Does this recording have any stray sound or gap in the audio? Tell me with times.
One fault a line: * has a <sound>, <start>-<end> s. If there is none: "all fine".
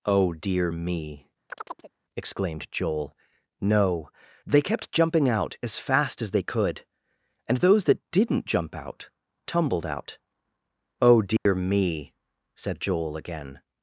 * has a chirp, 1.5-1.9 s
* has a dropout, 11.4-11.5 s